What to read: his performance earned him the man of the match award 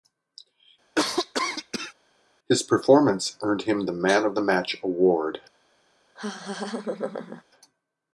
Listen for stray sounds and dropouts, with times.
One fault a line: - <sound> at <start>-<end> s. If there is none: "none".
- cough at 0.9-1.9 s
- laugh at 6.2-7.4 s